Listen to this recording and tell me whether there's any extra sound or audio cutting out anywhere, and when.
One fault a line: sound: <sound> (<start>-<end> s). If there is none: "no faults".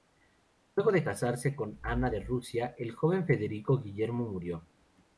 no faults